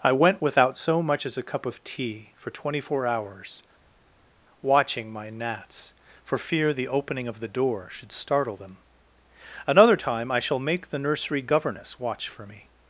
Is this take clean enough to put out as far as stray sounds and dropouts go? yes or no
yes